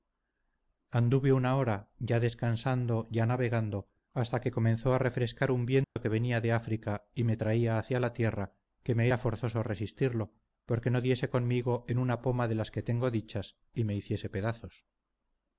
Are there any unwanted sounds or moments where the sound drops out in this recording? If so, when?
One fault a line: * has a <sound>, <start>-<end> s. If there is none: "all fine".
* has a dropout, 5.8-6.0 s